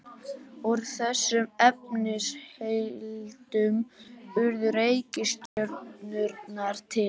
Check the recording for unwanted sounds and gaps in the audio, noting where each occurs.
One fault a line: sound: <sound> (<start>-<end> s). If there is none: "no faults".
sound: dropout (5.5-5.6 s)